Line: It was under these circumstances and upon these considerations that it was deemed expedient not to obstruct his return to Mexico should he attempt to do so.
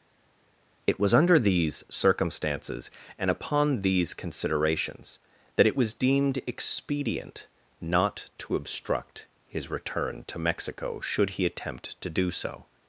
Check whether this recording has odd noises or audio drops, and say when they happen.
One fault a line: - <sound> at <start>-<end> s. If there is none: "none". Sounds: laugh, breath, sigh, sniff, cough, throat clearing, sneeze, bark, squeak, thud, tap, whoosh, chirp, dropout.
none